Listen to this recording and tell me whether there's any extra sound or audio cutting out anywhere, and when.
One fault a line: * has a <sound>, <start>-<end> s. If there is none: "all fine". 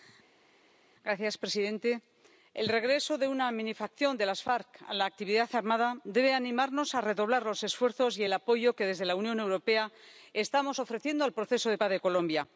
all fine